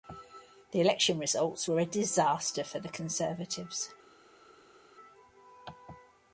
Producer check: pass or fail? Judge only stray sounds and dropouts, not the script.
pass